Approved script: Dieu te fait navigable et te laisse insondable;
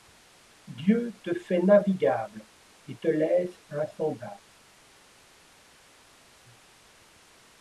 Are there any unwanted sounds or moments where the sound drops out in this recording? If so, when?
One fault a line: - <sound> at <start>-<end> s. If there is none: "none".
none